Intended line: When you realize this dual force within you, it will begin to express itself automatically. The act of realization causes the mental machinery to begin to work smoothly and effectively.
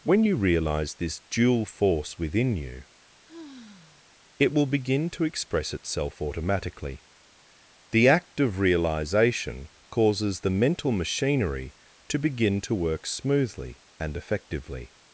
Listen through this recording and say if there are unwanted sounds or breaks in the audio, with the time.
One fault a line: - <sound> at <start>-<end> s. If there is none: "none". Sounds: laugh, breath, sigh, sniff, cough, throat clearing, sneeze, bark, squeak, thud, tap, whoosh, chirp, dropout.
- sigh at 3.3-4.1 s